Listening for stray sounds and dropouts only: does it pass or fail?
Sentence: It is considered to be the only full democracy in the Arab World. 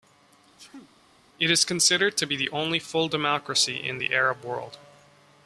fail